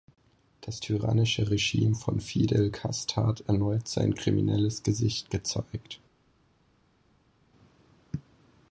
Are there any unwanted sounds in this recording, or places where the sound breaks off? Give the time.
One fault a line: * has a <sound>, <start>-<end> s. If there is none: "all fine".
all fine